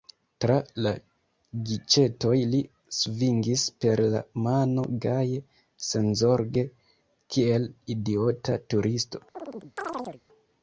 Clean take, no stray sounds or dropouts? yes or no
no